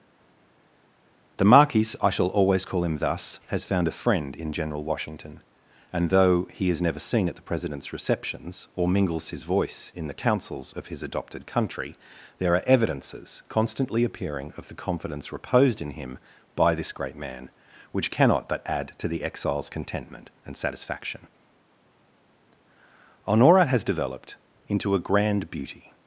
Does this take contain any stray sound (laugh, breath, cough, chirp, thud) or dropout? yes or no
no